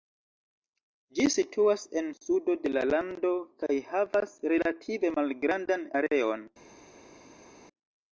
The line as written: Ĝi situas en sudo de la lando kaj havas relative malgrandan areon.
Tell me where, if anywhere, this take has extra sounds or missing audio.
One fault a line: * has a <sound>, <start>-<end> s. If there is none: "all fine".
all fine